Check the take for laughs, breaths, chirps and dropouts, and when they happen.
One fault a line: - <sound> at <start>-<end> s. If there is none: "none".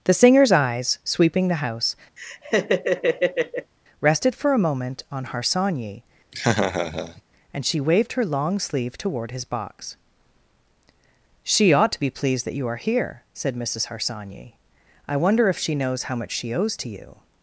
- laugh at 2.2-3.7 s
- laugh at 6.3-7.2 s